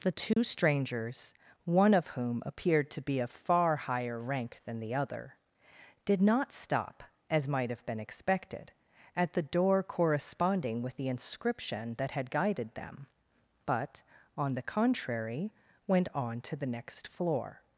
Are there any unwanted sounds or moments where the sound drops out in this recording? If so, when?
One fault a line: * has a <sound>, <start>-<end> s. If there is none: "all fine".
* has a dropout, 0.3-0.4 s